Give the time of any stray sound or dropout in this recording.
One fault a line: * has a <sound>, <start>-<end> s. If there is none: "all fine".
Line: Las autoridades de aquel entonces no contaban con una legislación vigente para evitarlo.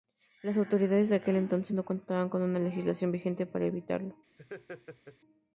* has a laugh, 4.4-5.2 s